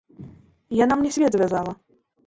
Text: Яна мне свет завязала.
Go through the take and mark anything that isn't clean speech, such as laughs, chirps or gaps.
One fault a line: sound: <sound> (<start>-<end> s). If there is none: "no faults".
no faults